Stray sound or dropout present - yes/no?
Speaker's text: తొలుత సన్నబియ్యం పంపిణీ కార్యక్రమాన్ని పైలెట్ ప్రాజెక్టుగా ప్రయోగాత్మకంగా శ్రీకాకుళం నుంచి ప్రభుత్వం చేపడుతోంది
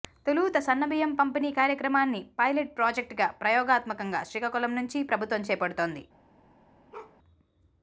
yes